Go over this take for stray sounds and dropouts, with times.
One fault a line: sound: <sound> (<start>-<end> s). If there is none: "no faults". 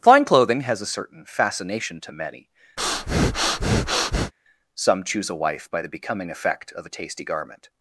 sound: breath (2.8-4.3 s)